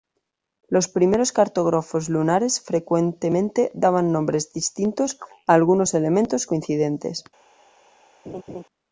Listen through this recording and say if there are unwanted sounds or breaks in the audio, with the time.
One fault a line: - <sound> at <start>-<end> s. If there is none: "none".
- laugh at 8.3-8.6 s